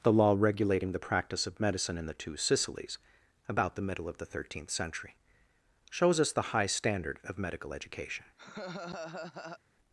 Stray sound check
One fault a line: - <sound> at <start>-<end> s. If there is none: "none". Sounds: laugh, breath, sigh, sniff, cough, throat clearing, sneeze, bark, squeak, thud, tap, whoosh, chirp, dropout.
- laugh at 8.4-9.6 s